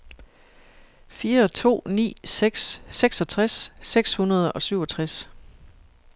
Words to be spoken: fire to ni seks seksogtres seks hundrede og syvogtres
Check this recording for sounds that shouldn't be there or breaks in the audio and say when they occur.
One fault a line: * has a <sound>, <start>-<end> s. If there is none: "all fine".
all fine